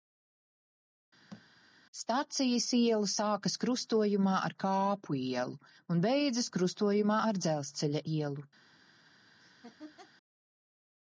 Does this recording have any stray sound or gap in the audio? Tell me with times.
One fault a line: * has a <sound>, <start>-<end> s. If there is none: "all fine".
* has a thud, 1.3-1.5 s
* has a laugh, 9.4-10.1 s